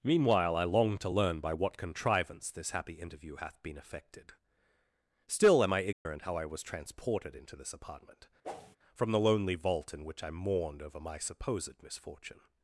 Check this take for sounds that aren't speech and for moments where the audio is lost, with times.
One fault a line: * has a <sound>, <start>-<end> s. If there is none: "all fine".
* has a dropout, 5.9-6.1 s
* has a whoosh, 8.4-8.8 s